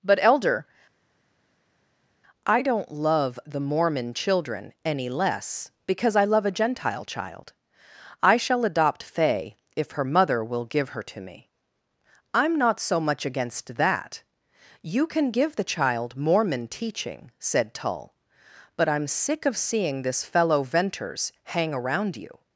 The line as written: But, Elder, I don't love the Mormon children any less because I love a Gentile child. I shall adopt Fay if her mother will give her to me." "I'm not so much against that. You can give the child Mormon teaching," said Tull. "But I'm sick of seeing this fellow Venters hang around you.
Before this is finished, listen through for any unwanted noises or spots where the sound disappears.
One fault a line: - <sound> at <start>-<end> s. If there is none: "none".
none